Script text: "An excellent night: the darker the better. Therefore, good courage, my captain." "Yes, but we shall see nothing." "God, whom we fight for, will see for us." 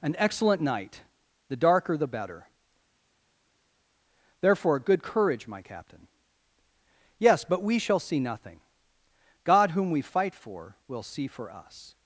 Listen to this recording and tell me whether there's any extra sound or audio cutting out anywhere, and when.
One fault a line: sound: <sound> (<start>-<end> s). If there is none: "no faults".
no faults